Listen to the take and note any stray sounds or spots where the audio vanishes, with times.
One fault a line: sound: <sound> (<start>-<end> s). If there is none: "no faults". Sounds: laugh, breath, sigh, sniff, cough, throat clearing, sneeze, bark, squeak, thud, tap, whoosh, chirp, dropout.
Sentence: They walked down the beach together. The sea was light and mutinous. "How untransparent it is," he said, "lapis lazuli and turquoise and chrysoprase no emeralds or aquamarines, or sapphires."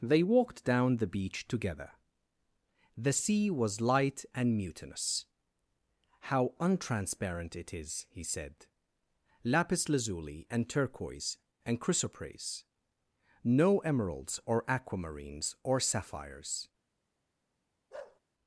sound: bark (17.9-18.2 s)